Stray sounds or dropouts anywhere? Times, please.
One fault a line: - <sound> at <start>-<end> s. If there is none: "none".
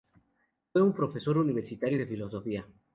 none